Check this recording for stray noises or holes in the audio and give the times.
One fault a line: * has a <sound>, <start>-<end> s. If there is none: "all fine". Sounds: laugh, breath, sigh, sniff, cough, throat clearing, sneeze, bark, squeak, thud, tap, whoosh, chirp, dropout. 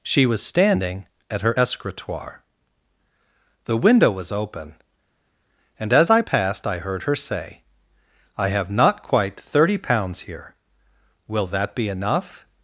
all fine